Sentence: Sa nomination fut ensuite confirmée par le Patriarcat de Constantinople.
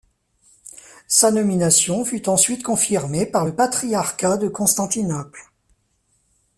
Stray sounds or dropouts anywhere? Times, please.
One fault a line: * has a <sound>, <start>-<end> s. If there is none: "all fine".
all fine